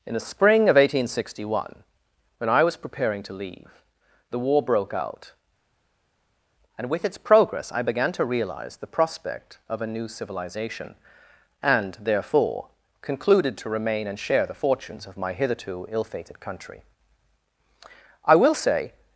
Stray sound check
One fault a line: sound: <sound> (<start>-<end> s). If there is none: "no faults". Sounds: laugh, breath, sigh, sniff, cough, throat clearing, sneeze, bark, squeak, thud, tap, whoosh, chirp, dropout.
no faults